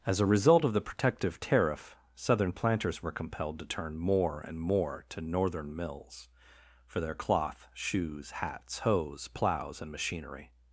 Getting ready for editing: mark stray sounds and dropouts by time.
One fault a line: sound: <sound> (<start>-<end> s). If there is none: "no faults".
no faults